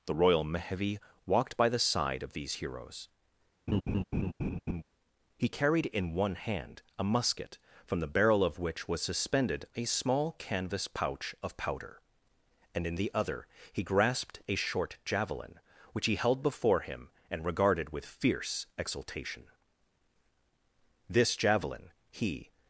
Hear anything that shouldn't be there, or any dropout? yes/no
yes